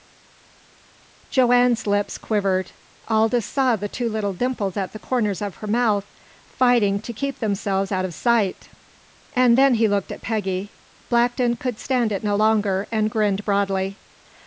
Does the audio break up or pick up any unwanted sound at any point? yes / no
no